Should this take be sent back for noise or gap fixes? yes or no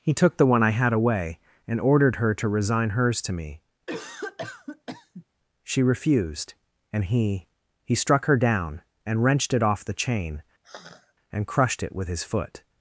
yes